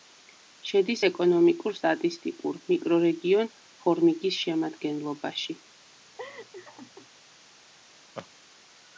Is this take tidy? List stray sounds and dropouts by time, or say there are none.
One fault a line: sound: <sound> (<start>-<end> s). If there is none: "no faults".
sound: laugh (6.2-7.1 s)
sound: laugh (8.2-8.3 s)